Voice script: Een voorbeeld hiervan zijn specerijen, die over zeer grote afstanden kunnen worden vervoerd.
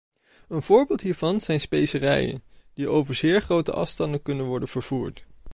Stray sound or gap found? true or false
false